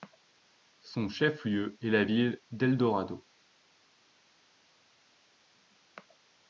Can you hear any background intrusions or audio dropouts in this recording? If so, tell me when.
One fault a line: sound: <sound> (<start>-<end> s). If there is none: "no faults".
no faults